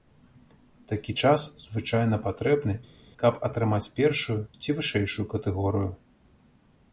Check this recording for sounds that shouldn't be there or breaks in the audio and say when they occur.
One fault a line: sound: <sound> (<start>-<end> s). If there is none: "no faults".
no faults